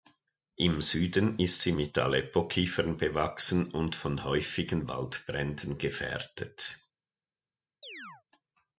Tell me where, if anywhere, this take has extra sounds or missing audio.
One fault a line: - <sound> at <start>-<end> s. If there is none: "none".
- chirp at 7.8-8.2 s